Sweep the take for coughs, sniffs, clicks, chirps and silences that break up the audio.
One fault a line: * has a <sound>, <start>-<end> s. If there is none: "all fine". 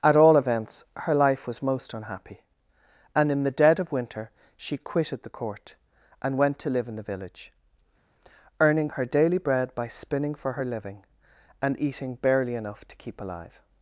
all fine